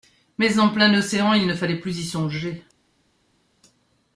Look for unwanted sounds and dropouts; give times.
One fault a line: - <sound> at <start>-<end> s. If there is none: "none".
none